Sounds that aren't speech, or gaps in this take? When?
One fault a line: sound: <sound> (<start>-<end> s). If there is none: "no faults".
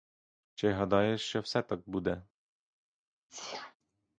sound: sneeze (3.3-3.8 s)